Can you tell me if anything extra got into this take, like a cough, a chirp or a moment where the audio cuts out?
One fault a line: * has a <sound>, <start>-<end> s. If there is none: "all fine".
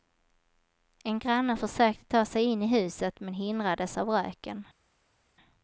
all fine